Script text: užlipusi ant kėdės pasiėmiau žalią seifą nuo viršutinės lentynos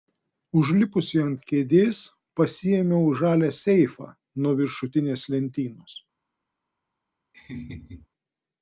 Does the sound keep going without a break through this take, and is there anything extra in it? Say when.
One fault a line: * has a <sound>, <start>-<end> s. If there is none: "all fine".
* has a laugh, 7.3-8.1 s